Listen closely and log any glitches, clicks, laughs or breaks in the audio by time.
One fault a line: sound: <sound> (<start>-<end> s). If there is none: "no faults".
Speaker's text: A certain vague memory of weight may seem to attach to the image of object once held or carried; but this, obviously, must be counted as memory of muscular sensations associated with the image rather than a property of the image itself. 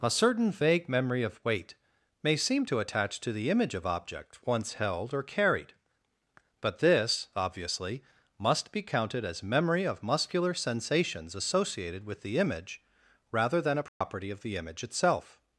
sound: dropout (13.9-14.0 s)